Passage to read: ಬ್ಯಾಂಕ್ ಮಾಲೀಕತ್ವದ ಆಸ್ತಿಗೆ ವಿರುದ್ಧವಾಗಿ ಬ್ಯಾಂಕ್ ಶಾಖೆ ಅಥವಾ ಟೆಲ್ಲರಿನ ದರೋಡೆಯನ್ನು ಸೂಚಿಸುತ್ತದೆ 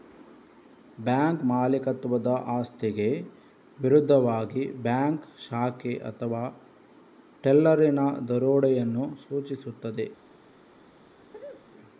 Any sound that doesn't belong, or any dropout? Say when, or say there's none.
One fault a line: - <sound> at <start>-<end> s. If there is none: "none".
- sneeze at 11.3-11.7 s